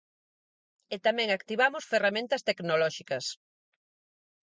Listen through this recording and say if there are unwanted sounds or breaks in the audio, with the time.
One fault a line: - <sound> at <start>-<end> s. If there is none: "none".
none